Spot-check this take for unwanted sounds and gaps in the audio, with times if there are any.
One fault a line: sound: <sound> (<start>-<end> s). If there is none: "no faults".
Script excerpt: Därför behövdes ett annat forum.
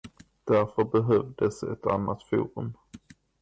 no faults